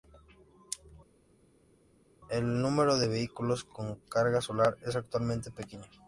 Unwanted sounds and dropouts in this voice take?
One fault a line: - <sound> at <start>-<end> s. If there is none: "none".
none